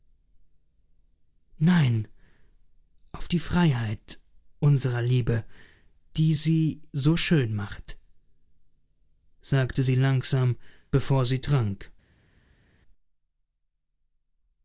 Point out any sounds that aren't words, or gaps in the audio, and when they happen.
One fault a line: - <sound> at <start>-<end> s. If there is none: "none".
none